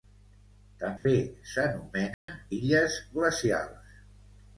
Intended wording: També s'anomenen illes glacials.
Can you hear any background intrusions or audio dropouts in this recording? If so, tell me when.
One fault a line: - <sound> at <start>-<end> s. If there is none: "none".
- dropout at 1.0-1.1 s
- dropout at 2.1-2.3 s